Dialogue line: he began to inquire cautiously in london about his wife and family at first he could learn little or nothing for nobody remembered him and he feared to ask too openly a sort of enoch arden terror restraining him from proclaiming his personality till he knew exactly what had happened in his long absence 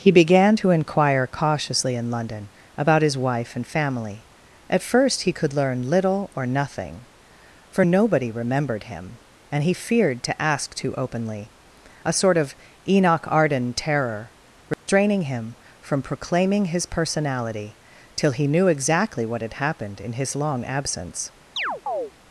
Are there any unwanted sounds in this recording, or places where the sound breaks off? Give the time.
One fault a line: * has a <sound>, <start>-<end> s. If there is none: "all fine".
* has a dropout, 14.7-14.9 s
* has a chirp, 21.6-22.1 s